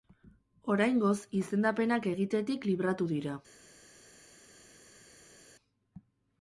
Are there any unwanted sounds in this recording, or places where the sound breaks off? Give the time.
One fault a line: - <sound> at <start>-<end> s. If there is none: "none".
none